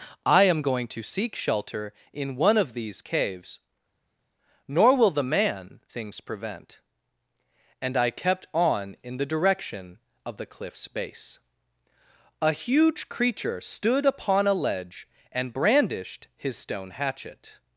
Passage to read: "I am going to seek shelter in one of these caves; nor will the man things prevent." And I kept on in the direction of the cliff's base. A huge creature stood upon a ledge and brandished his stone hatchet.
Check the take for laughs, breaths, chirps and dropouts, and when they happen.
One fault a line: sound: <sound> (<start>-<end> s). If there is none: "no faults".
no faults